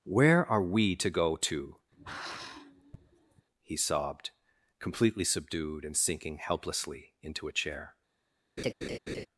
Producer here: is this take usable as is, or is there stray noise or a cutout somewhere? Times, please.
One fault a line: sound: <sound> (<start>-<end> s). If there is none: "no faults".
sound: sigh (1.9-3.5 s)
sound: laugh (8.6-9.3 s)